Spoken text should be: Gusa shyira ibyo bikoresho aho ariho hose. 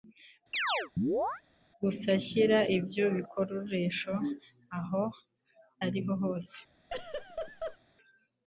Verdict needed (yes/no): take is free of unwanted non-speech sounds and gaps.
no